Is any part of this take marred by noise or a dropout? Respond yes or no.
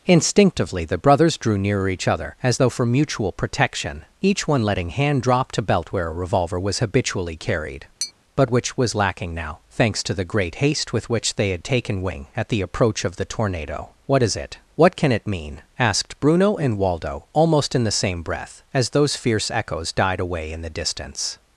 yes